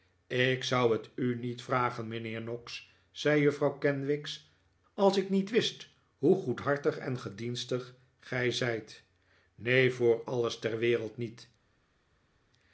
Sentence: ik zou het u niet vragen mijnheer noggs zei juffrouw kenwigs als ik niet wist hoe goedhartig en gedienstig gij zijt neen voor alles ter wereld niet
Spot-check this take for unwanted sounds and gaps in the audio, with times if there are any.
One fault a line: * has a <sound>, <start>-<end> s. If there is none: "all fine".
all fine